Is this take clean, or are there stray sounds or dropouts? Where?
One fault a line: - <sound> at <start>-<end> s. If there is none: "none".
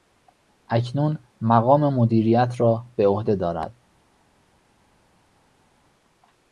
none